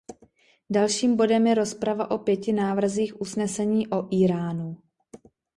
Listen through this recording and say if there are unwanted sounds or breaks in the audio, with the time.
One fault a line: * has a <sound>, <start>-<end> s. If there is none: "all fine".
all fine